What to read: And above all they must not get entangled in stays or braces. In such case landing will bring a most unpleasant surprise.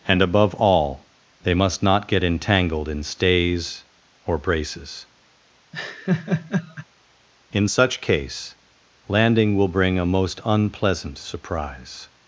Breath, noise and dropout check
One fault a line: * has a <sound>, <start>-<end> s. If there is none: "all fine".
* has a laugh, 5.7-6.9 s